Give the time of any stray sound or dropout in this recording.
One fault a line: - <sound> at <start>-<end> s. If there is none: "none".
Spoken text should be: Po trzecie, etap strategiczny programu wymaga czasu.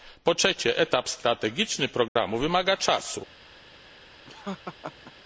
- dropout at 2.1-2.2 s
- laugh at 4.3-5.1 s